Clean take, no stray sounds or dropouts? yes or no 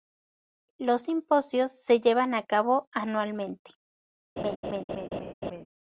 no